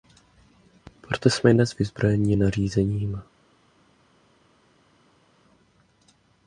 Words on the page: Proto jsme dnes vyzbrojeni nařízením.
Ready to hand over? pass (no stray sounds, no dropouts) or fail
pass